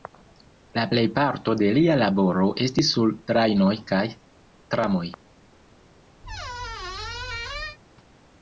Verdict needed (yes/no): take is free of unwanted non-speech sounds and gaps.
no